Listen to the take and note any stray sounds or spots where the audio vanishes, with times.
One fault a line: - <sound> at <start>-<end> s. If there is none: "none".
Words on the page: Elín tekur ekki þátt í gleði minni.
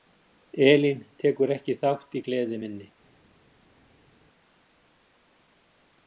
none